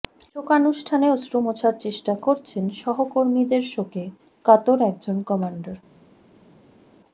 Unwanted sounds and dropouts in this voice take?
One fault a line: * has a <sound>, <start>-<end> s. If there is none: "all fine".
all fine